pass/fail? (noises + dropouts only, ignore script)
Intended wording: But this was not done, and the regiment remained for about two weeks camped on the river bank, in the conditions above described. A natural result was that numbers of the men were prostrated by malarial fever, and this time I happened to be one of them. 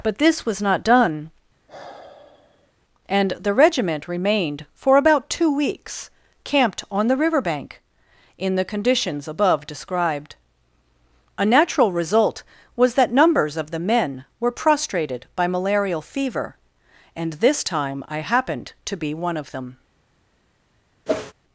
fail